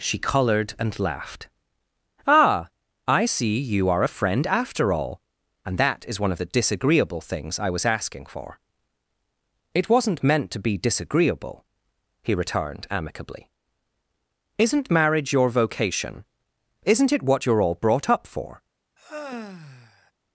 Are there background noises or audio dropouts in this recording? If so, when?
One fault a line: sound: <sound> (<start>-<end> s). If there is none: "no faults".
sound: sigh (19.0-20.1 s)